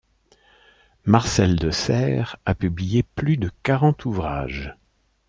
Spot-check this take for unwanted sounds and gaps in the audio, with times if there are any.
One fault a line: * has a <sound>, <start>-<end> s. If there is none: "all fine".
all fine